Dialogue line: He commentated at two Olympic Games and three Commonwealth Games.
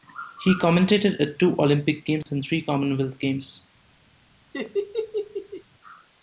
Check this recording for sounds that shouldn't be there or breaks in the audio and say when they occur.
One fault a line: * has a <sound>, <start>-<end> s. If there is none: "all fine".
* has a dropout, 2.2-2.3 s
* has a laugh, 4.5-5.6 s